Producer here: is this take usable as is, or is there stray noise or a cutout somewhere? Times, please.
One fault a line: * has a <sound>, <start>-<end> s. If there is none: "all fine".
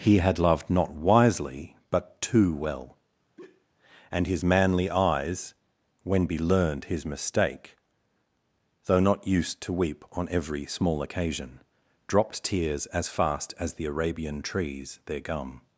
* has a sigh, 3.4-3.7 s